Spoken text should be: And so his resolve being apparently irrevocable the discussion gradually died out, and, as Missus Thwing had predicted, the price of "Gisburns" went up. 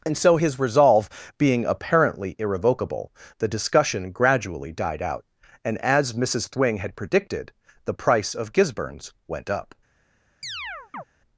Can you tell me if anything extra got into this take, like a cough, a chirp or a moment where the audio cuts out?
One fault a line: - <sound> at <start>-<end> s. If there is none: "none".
- chirp at 10.4-11.0 s